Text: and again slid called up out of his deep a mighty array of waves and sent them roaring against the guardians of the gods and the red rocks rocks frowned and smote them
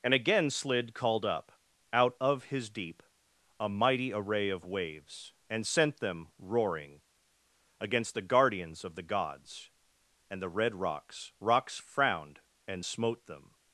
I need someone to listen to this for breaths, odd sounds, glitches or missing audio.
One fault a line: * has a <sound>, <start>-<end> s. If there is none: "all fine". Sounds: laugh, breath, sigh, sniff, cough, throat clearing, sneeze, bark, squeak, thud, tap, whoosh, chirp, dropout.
all fine